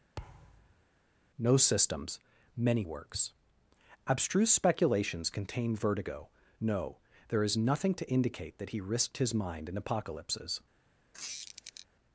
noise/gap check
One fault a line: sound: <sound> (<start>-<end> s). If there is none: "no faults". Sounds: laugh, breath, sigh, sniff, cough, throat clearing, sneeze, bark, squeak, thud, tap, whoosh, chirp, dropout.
sound: thud (0.2-0.8 s)
sound: squeak (11.1-11.9 s)